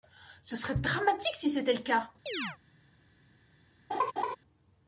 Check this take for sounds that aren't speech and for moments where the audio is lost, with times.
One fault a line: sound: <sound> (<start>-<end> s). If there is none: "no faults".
sound: chirp (2.3-2.6 s)
sound: laugh (3.9-4.4 s)